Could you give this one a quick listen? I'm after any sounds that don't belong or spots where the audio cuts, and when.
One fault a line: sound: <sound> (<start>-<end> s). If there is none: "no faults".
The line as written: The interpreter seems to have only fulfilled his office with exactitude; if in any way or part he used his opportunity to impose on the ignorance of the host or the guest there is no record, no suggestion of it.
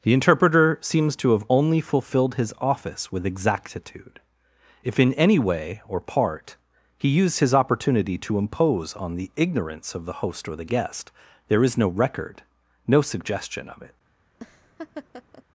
sound: laugh (14.3-15.4 s)